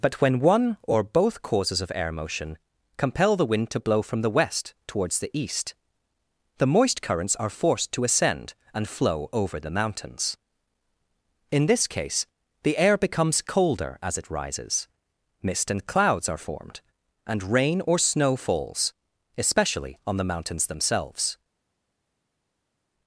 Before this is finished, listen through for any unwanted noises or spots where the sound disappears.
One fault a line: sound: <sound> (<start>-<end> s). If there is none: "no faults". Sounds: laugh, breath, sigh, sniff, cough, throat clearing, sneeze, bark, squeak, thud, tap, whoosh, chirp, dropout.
no faults